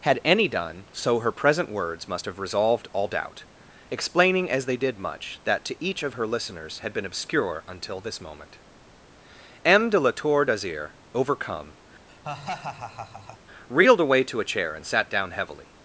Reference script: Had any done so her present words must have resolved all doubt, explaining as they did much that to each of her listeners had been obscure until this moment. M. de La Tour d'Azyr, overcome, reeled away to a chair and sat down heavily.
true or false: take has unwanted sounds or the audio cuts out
true